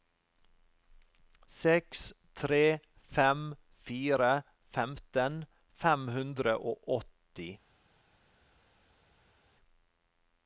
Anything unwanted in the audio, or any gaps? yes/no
no